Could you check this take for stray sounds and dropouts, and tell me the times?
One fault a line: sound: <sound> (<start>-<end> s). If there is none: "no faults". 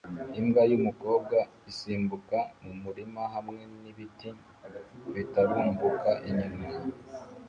no faults